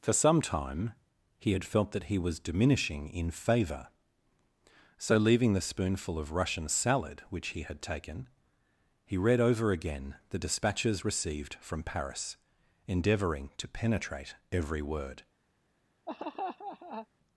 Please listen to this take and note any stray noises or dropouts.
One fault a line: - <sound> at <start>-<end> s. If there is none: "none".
- laugh at 16.1-17.1 s